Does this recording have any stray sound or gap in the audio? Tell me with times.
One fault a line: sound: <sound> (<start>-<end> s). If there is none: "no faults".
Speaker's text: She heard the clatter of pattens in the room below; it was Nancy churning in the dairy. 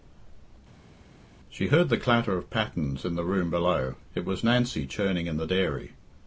no faults